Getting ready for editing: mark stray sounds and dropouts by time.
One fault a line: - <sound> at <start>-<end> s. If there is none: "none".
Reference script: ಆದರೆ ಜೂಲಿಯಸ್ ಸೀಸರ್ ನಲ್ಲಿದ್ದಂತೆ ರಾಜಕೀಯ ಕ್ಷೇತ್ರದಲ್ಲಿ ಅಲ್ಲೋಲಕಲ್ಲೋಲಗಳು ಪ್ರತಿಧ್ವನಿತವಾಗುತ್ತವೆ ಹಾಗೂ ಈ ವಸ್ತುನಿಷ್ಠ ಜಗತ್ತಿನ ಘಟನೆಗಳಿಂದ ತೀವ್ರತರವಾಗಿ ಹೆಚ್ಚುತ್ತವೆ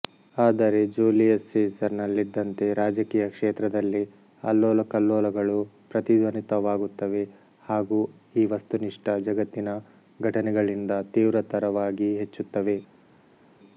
none